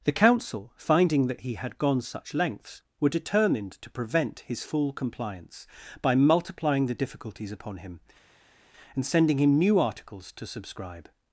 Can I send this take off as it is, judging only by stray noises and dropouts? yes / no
yes